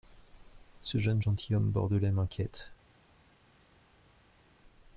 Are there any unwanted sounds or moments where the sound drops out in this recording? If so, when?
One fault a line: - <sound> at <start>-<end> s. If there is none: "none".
none